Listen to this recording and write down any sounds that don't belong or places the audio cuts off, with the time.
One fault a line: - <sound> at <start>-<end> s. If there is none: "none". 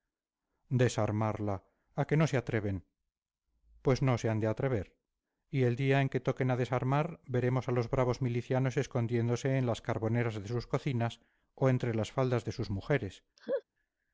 - laugh at 13.4-13.6 s